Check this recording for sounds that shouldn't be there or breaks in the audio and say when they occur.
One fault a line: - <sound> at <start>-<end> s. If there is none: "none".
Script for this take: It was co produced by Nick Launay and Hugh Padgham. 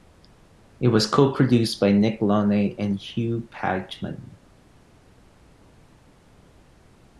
none